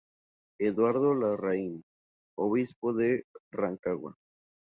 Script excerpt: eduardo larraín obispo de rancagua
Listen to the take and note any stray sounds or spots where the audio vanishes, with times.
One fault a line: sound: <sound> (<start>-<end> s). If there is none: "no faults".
no faults